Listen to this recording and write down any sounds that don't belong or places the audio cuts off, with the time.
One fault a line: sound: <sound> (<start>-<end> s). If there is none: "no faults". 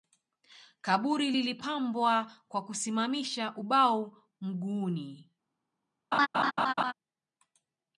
sound: laugh (6.1-6.9 s)